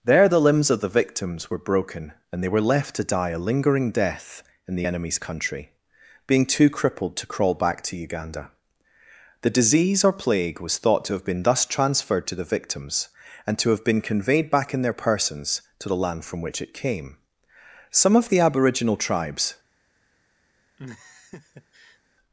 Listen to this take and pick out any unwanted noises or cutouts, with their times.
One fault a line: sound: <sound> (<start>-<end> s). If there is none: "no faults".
sound: laugh (20.8-22.0 s)